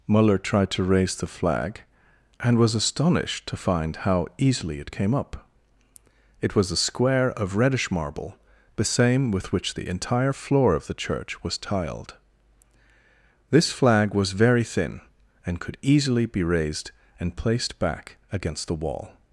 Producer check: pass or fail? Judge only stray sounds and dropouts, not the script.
pass